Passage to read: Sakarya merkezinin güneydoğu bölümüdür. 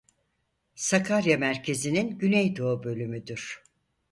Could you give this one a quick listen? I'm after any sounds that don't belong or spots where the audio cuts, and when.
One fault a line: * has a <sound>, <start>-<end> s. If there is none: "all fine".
all fine